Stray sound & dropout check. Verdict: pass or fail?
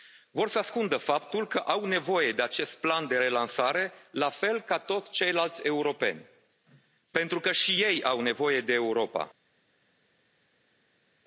pass